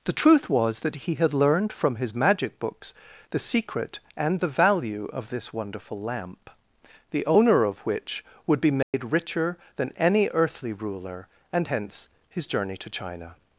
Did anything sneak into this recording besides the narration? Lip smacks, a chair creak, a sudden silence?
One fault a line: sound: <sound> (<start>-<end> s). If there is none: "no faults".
sound: dropout (8.8-8.9 s)